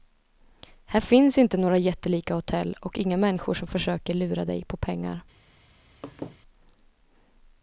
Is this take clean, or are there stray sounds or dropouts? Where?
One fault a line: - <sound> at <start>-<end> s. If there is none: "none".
- laugh at 6.0-6.4 s